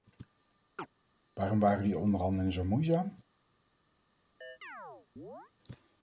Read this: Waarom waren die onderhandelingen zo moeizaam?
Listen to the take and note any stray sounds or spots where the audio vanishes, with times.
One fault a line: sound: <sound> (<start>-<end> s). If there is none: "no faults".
sound: chirp (0.8-0.9 s)
sound: chirp (4.4-5.5 s)